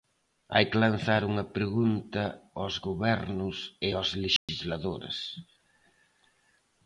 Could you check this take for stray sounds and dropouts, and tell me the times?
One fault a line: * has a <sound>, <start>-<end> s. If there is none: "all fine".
* has a dropout, 4.4-4.5 s